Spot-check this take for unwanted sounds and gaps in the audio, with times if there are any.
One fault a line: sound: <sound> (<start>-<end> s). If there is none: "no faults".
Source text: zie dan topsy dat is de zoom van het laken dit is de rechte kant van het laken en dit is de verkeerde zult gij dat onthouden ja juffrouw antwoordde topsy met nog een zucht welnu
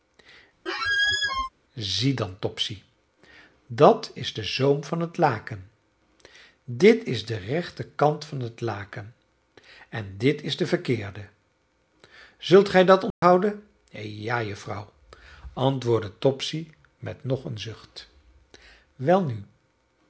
sound: squeak (0.7-1.5 s)
sound: dropout (13.1-13.2 s)